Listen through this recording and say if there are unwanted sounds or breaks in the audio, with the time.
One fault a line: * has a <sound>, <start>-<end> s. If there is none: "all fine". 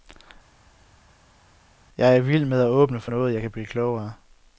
all fine